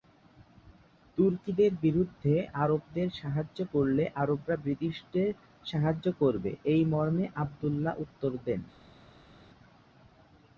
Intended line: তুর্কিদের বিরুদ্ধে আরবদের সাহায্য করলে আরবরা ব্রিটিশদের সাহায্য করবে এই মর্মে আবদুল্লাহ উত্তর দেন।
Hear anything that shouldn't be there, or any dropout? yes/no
no